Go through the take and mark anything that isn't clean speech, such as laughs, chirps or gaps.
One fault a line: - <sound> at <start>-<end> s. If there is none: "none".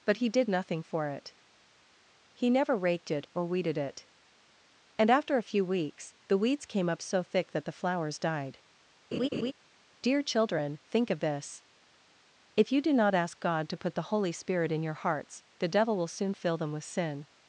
- laugh at 9.1-9.5 s